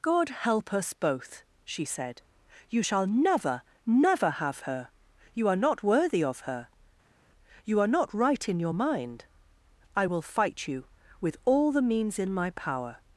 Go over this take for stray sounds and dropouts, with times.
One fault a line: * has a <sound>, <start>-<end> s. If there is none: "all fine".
all fine